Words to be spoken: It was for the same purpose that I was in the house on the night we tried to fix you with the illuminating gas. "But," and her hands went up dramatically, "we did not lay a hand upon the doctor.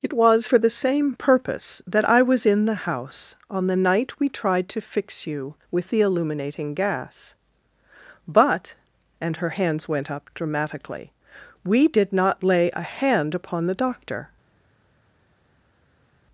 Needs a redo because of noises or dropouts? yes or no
no